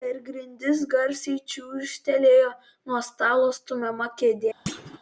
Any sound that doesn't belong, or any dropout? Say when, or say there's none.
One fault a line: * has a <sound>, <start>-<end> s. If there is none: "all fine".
* has a thud, 4.7-5.0 s